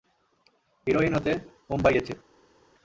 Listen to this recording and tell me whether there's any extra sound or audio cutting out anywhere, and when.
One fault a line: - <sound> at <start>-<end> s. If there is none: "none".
none